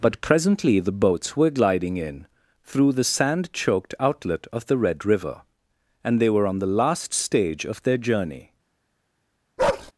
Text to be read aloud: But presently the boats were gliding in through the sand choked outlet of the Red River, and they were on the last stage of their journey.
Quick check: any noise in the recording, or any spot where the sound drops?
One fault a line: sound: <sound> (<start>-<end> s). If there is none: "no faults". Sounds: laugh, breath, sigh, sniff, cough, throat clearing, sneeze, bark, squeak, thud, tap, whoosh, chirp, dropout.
sound: bark (9.6-9.9 s)